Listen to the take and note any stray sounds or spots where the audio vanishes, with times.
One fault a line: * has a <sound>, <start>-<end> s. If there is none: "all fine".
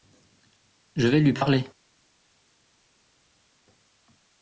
all fine